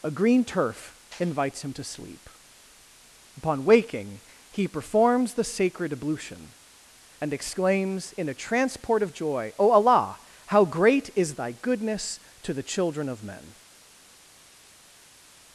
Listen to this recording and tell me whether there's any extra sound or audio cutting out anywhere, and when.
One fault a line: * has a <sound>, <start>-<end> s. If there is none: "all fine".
all fine